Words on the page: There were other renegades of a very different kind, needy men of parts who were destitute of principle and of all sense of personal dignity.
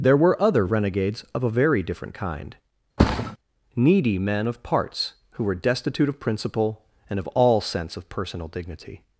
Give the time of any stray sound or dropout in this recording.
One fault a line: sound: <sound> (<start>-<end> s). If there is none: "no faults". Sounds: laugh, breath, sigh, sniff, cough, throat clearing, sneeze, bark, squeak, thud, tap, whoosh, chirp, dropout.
sound: thud (3.0-3.4 s)